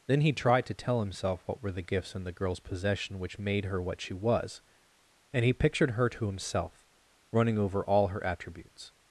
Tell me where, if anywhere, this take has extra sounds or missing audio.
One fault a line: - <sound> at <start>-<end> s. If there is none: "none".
none